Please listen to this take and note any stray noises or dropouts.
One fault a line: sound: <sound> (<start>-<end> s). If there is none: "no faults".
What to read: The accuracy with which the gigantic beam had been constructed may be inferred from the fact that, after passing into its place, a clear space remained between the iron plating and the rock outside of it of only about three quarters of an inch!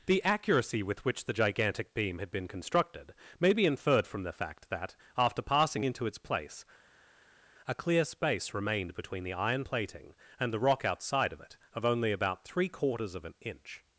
no faults